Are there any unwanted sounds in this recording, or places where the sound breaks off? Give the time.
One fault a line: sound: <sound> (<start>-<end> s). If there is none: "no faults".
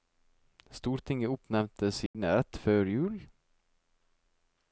sound: dropout (2.1-2.1 s)